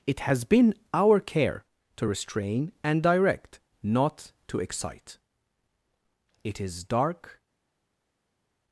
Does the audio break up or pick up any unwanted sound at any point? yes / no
no